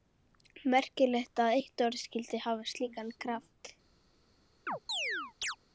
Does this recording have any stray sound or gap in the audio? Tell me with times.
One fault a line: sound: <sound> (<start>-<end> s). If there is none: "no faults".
sound: chirp (4.7-5.6 s)